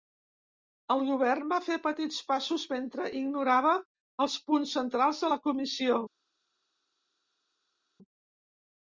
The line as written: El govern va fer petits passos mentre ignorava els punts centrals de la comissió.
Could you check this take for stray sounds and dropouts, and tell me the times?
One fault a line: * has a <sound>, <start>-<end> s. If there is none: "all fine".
all fine